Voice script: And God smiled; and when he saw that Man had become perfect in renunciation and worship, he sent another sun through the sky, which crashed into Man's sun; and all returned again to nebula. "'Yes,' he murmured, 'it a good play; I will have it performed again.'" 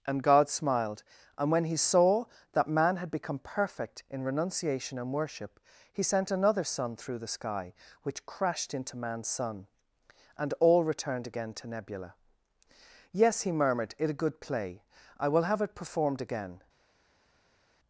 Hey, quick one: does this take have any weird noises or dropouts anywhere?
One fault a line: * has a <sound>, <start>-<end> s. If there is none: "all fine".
all fine